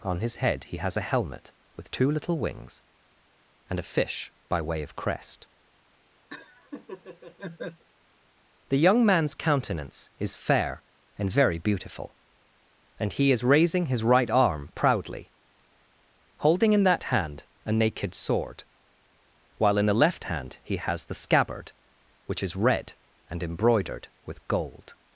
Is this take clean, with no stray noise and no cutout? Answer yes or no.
no